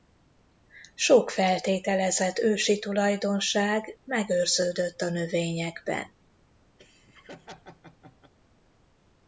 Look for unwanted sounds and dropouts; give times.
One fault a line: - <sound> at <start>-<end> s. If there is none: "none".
- laugh at 6.8-8.3 s